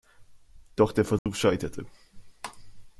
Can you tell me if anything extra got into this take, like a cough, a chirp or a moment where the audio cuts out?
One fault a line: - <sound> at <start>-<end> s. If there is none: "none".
- dropout at 1.2-1.3 s